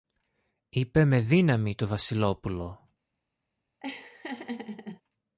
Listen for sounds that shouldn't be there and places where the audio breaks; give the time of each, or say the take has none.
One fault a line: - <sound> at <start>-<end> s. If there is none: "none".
- laugh at 3.8-5.0 s